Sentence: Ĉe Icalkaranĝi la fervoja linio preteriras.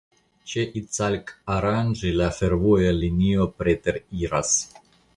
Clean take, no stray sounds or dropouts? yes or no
yes